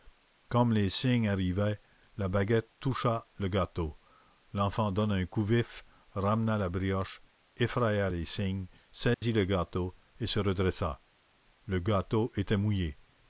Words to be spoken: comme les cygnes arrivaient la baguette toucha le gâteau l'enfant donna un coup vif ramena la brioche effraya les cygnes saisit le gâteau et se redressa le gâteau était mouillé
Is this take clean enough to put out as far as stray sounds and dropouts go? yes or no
no